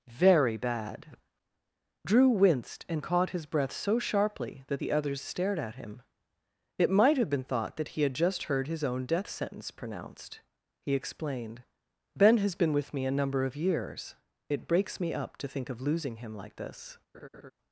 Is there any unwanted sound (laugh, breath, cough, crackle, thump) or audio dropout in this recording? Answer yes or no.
yes